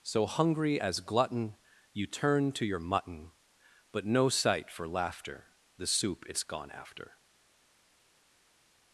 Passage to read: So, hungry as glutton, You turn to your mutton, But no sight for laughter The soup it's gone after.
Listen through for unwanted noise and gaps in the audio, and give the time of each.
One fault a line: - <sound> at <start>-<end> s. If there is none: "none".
none